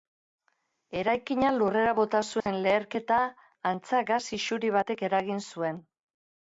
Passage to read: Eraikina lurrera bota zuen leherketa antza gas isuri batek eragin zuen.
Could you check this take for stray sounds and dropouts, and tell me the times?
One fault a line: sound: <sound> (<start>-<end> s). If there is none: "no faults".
sound: dropout (2.4-2.5 s)